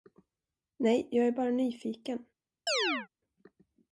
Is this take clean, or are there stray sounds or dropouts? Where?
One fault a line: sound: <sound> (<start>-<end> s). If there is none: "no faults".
sound: chirp (2.7-3.1 s)